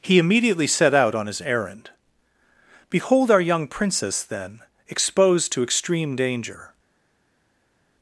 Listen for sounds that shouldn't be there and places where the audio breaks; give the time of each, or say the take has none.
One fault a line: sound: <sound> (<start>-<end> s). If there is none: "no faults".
no faults